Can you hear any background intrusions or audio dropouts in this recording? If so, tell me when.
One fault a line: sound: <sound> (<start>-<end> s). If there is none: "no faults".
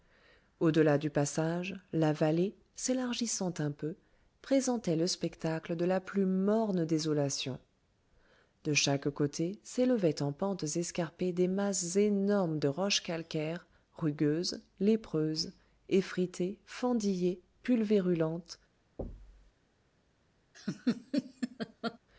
sound: thud (19.0-19.5 s)
sound: laugh (20.5-22.0 s)